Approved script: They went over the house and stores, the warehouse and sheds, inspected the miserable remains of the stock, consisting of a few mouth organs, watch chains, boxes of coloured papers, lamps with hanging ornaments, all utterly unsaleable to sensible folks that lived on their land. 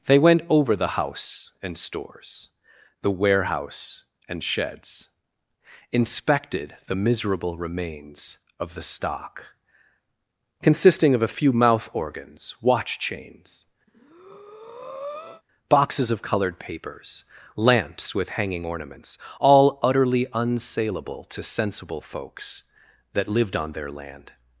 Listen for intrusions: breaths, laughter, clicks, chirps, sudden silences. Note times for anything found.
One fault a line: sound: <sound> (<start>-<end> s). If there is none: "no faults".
sound: breath (13.9-15.4 s)